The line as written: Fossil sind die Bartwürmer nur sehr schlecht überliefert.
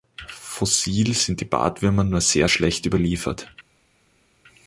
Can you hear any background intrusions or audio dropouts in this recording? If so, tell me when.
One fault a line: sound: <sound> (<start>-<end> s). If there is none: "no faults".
no faults